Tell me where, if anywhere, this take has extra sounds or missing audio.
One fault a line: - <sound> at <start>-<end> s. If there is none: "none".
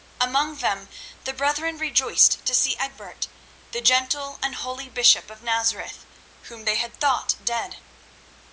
none